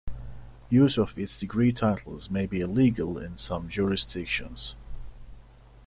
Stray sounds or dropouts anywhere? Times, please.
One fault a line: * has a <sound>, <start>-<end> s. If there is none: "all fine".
all fine